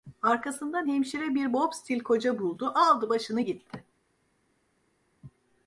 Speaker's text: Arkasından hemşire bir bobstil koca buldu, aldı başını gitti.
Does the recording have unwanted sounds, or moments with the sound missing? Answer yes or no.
no